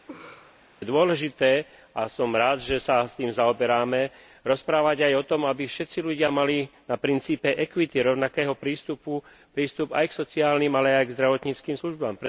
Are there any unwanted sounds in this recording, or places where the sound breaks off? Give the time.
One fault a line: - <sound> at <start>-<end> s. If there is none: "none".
- laugh at 0.1-0.6 s